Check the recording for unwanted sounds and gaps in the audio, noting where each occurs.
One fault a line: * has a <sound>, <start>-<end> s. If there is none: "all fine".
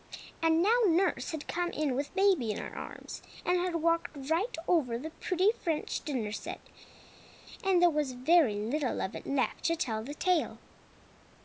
all fine